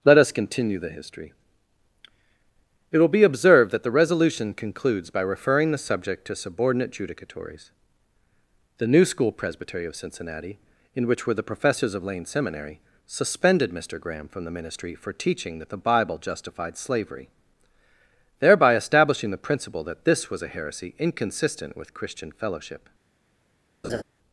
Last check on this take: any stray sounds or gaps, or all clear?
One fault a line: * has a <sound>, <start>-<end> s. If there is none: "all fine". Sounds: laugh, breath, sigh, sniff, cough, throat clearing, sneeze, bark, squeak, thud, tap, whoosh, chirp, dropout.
* has a laugh, 23.8-24.0 s